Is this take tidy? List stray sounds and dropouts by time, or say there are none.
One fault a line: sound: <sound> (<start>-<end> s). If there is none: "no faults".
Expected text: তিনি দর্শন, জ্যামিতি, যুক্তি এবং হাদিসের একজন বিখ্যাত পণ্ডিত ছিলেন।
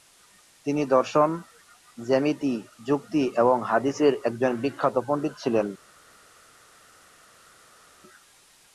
no faults